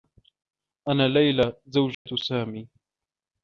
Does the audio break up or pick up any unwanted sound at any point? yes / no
yes